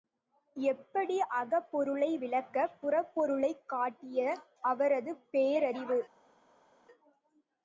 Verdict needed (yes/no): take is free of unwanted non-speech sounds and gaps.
yes